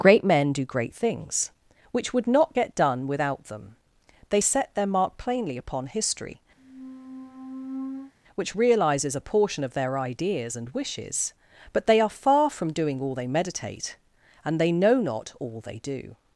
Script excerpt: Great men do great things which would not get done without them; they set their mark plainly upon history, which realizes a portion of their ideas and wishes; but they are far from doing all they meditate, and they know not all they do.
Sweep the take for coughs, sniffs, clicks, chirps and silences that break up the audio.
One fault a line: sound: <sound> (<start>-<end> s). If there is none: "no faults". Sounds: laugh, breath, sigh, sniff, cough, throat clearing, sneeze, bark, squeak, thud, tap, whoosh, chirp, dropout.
sound: squeak (6.6-8.1 s)